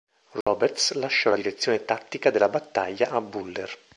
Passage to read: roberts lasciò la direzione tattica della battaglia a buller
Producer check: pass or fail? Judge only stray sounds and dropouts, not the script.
fail